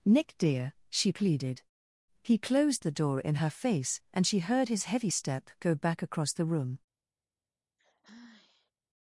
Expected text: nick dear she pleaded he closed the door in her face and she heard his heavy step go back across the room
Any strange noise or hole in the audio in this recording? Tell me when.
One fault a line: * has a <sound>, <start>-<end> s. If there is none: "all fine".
* has a sigh, 7.8-8.7 s